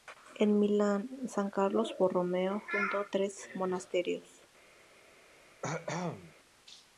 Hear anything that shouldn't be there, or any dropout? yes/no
yes